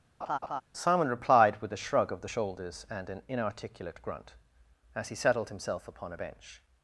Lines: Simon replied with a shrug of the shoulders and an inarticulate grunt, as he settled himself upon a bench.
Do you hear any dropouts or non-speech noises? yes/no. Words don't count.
yes